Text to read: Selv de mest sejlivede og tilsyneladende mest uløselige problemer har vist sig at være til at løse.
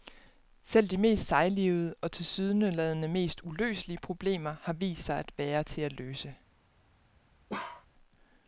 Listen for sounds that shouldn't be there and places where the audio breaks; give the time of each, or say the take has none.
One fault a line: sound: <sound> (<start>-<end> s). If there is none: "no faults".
sound: bark (7.5-7.9 s)